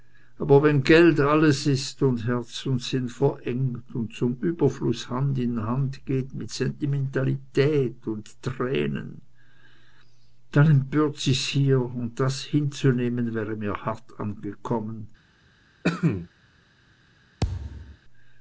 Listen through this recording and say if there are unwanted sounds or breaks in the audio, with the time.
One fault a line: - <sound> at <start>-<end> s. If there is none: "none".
- cough at 15.8-16.3 s
- thud at 17.4-18.0 s